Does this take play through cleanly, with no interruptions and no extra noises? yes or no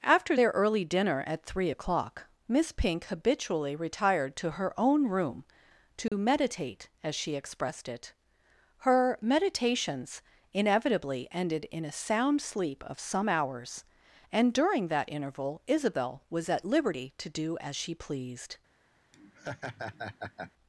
no